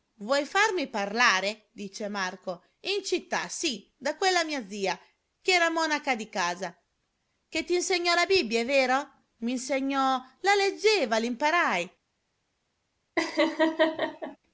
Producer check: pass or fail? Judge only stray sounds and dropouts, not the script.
fail